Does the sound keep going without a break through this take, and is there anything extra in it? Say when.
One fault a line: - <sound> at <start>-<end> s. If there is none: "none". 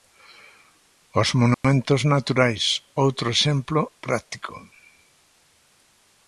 - dropout at 1.5-1.6 s